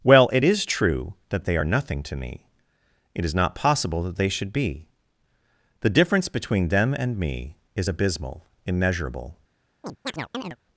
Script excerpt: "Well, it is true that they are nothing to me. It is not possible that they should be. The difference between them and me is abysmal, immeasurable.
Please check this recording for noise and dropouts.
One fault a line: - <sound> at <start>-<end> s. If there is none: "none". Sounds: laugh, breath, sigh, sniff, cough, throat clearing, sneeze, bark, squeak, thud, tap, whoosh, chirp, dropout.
- chirp at 9.8-10.6 s